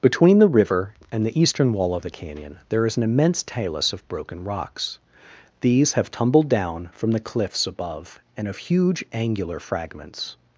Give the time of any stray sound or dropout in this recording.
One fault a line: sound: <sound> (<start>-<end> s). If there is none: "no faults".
no faults